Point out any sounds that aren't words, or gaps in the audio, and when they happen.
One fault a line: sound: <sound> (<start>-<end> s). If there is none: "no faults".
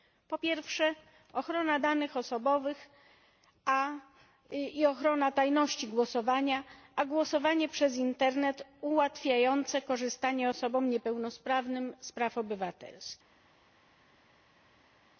no faults